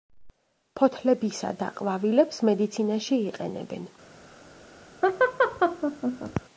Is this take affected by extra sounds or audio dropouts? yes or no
yes